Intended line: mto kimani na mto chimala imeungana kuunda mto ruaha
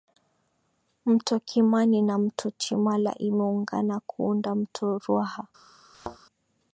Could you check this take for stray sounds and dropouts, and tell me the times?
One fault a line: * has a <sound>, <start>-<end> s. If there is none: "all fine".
* has a thud, 5.9-6.2 s